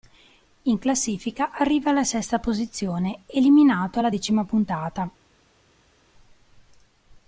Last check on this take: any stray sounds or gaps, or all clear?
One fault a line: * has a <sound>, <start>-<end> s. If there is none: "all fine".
all fine